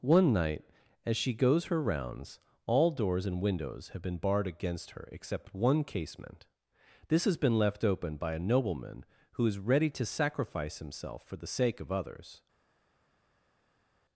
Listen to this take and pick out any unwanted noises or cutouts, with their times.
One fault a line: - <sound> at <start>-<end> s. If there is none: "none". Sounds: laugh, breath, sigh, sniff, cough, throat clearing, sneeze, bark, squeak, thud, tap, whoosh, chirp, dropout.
none